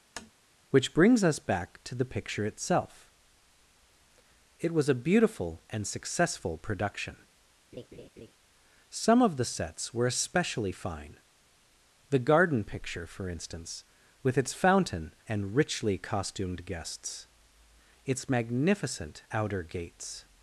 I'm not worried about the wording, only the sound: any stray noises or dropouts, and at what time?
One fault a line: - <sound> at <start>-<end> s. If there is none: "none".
- tap at 0.2-0.3 s
- laugh at 7.7-8.3 s